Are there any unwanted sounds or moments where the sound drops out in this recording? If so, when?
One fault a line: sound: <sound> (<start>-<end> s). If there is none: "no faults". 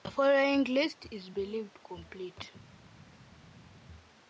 no faults